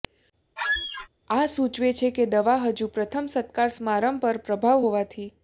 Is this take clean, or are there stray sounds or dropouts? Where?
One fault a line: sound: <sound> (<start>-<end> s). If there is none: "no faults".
sound: squeak (0.6-1.1 s)